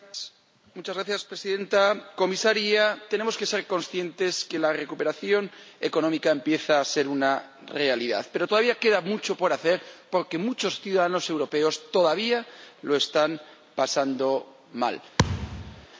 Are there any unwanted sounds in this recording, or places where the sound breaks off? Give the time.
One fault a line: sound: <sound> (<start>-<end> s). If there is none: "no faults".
sound: thud (15.2-15.9 s)